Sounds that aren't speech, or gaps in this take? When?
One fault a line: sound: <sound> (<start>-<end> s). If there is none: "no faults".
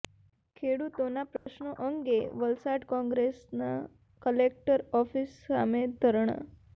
sound: dropout (1.4-1.5 s)